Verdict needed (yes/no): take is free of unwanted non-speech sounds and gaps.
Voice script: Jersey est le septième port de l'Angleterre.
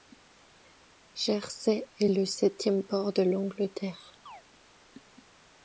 no